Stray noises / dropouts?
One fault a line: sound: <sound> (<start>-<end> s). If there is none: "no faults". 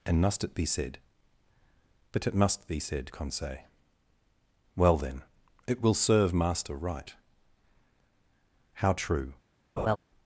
sound: laugh (9.8-10.0 s)